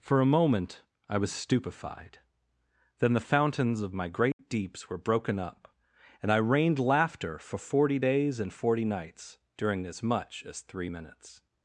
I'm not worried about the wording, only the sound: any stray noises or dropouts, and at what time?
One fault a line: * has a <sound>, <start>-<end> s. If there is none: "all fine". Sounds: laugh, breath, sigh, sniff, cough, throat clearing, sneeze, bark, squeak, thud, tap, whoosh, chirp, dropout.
* has a dropout, 4.3-4.4 s